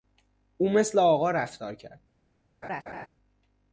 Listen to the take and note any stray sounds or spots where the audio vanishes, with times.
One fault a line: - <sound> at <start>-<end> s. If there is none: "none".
- laugh at 2.6-3.1 s